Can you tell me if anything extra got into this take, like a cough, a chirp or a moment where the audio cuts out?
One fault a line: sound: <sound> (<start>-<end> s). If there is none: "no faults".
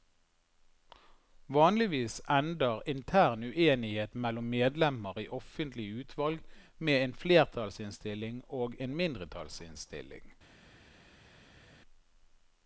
no faults